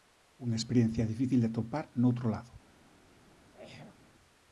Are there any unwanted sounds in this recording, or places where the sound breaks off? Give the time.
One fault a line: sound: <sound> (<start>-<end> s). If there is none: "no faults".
sound: throat clearing (3.4-4.0 s)